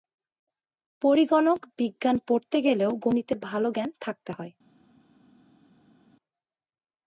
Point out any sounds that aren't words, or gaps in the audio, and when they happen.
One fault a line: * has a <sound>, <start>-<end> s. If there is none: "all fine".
all fine